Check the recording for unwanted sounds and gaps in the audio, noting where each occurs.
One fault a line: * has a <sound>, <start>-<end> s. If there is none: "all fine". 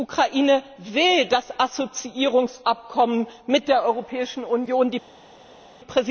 all fine